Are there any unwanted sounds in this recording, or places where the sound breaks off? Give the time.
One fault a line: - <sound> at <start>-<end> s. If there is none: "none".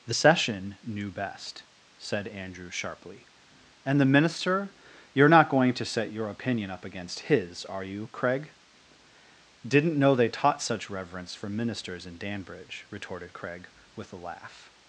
none